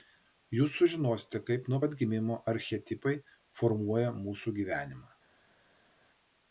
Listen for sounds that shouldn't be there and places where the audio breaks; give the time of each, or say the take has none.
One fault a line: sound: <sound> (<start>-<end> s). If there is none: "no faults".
no faults